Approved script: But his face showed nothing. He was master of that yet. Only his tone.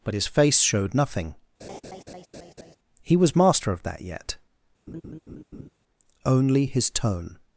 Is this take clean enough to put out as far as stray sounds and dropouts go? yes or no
no